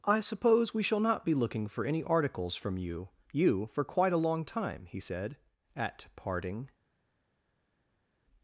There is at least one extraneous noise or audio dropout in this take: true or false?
false